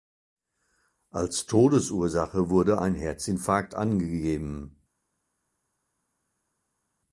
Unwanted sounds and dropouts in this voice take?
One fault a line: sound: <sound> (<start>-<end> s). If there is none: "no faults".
no faults